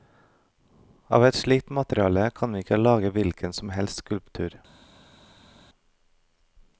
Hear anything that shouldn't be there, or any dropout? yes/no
no